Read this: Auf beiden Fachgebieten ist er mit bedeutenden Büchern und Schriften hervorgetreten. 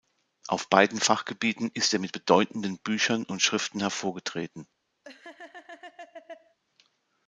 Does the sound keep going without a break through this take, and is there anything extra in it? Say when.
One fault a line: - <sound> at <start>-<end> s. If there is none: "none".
- laugh at 5.0-6.6 s